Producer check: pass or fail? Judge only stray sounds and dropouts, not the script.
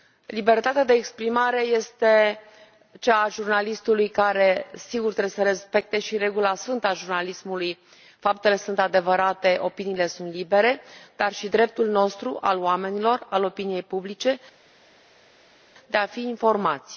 pass